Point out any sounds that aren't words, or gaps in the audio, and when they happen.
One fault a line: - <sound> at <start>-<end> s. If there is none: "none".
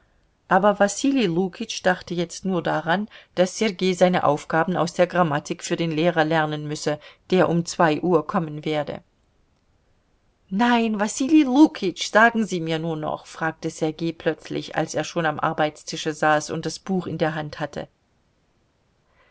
none